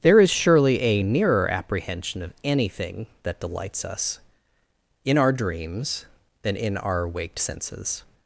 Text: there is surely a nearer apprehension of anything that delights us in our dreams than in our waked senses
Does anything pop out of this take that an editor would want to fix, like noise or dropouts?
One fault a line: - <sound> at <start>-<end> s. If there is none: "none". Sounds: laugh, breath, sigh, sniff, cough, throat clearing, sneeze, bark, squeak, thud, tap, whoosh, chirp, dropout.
none